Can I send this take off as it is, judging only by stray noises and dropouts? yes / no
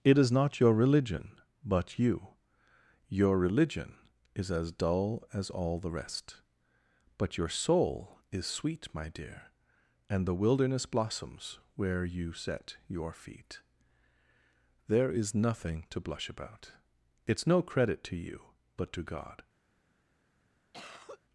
no